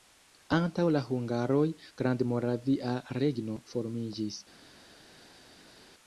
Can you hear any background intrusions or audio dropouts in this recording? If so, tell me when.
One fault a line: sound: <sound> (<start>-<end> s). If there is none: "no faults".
no faults